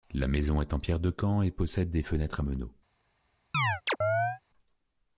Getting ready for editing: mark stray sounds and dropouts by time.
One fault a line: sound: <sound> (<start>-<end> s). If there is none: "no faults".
sound: chirp (3.5-4.4 s)